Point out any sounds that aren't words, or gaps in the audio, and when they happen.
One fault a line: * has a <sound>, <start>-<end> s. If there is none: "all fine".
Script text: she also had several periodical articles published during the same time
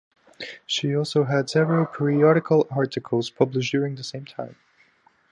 all fine